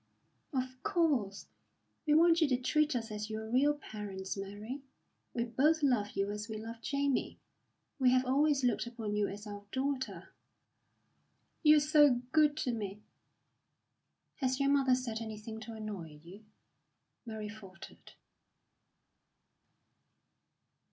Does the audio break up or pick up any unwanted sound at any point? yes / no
no